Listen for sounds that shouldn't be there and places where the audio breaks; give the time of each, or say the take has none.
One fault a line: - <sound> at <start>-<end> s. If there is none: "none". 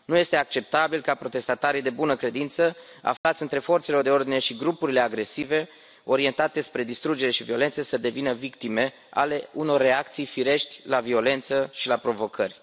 - dropout at 3.2-3.2 s